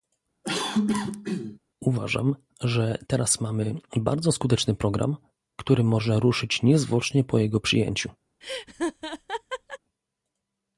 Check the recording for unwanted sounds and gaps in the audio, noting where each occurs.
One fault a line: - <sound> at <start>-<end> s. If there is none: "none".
- cough at 0.4-1.6 s
- laugh at 8.4-9.8 s